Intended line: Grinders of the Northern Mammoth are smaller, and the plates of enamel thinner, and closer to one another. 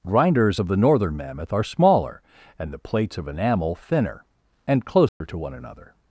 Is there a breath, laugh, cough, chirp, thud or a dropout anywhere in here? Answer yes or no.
yes